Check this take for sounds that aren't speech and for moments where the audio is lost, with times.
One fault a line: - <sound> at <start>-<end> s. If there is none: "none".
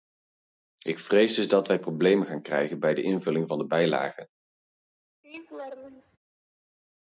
- laugh at 5.2-6.2 s